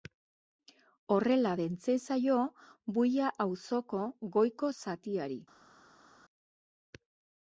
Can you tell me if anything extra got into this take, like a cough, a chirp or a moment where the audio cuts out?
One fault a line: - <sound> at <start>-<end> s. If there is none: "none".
none